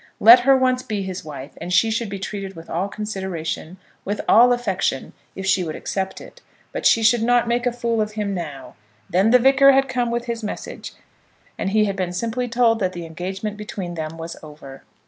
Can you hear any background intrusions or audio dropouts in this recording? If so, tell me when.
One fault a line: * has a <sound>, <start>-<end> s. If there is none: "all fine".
all fine